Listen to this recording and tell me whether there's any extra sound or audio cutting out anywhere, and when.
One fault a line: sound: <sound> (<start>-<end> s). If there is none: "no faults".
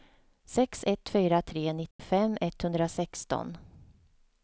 sound: dropout (1.9-2.0 s)